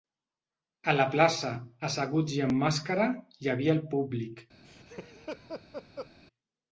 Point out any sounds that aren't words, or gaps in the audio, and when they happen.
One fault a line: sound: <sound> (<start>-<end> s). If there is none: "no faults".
sound: laugh (4.6-6.1 s)